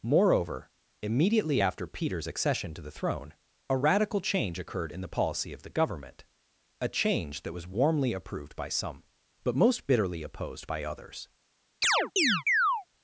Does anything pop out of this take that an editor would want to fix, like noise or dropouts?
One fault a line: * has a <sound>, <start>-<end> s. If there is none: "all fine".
* has a chirp, 11.8-12.9 s